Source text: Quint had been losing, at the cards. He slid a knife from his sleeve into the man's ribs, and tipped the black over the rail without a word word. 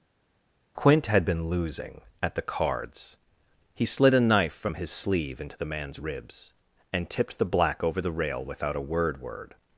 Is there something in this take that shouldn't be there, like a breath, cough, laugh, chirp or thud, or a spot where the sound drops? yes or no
no